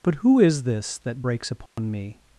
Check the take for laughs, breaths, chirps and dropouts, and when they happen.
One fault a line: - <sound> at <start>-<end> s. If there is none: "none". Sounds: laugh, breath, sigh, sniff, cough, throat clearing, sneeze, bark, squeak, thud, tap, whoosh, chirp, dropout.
- dropout at 1.7-1.8 s